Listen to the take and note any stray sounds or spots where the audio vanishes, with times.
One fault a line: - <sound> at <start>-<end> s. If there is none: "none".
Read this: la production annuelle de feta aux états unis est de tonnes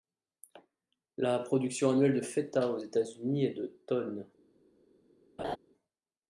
- laugh at 5.4-5.6 s